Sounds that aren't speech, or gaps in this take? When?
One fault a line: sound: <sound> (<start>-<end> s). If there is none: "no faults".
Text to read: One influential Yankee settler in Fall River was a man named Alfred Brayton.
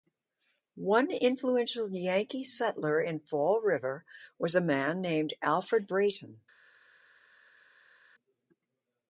no faults